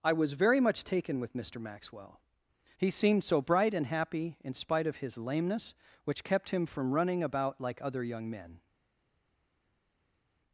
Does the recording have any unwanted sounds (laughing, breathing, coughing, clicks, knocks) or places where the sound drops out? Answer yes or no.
no